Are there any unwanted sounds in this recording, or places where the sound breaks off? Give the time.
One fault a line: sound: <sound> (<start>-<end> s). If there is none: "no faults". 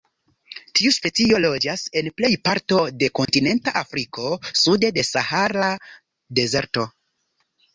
sound: dropout (3.3-3.3 s)